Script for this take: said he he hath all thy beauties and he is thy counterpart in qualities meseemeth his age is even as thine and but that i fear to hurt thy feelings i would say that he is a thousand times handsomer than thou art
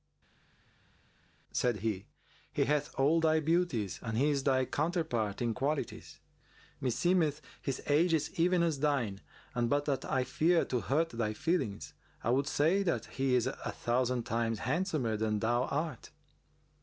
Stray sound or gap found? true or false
false